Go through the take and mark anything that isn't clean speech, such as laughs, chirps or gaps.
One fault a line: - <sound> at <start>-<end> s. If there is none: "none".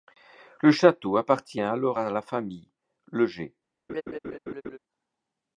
- laugh at 3.9-4.8 s